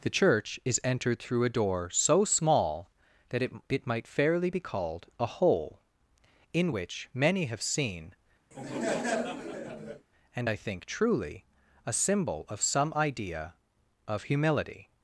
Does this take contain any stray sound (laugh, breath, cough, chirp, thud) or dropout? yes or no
yes